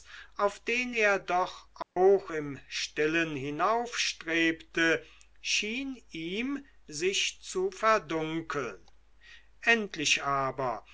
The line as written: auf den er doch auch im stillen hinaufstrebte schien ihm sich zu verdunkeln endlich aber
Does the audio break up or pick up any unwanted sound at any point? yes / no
yes